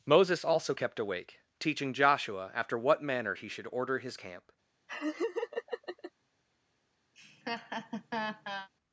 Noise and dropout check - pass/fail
fail